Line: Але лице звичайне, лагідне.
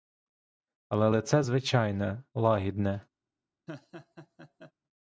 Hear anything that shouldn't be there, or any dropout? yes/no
yes